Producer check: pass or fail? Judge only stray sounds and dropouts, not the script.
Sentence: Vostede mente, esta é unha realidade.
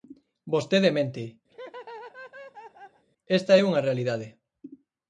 fail